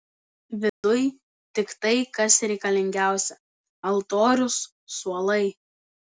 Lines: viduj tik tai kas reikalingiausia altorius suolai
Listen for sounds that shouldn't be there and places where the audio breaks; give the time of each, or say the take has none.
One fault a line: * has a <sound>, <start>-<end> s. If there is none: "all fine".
* has a dropout, 0.7-0.8 s